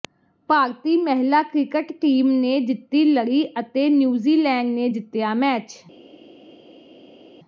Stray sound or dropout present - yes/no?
no